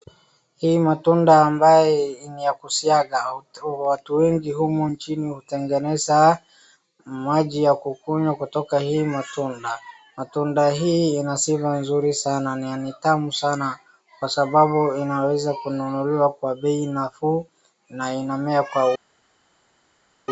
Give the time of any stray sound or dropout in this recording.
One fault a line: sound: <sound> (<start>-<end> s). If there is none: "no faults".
no faults